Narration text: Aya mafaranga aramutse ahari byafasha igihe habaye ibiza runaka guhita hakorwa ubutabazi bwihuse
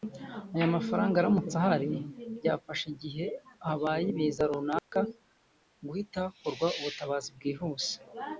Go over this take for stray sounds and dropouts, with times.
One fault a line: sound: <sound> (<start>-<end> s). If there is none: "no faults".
sound: dropout (4.8-4.9 s)